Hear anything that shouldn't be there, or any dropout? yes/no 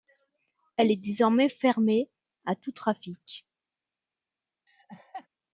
yes